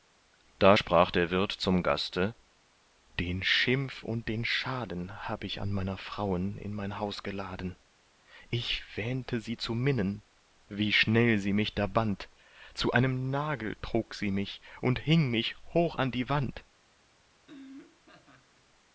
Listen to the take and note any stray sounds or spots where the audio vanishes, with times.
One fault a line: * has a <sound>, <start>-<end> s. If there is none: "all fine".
* has a laugh, 17.4-18.7 s